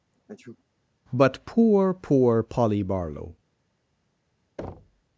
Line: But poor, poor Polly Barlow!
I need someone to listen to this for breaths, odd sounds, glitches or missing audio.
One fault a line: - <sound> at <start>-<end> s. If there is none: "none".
- sneeze at 0.1-0.6 s
- thud at 4.6-5.0 s